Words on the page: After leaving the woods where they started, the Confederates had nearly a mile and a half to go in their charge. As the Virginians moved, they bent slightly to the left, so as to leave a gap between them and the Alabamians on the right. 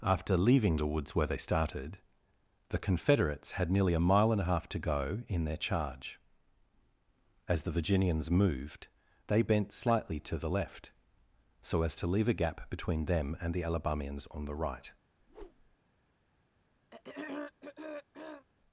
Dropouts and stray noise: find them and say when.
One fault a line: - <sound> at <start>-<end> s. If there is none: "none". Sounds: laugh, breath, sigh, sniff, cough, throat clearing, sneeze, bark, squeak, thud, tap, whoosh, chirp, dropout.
- whoosh at 15.2-15.8 s
- throat clearing at 16.9-18.5 s